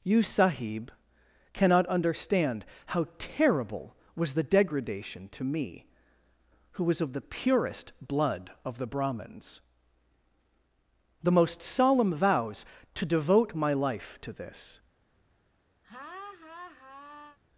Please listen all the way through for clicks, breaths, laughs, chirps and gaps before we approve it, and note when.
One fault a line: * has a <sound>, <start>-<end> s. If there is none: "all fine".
* has a laugh, 15.8-17.4 s